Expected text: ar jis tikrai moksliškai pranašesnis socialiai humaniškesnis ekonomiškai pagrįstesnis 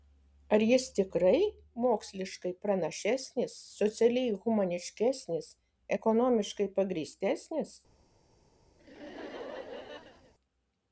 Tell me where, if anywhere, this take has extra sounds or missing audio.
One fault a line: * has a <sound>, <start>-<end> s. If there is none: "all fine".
* has a laugh, 8.8-10.3 s